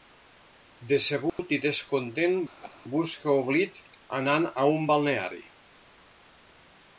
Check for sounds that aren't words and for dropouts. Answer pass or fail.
fail